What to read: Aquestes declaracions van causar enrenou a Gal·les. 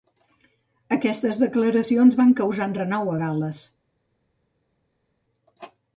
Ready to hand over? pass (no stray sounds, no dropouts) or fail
pass